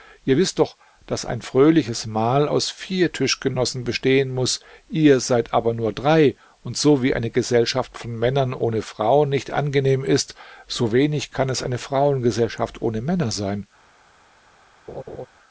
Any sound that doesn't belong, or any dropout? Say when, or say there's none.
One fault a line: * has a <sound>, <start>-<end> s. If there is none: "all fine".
* has a laugh, 14.9-15.3 s